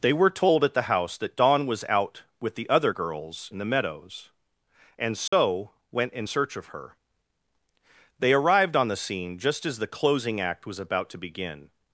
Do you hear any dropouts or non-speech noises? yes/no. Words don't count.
yes